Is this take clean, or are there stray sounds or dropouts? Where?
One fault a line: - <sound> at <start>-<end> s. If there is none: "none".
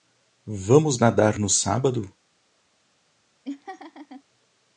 - laugh at 3.4-4.2 s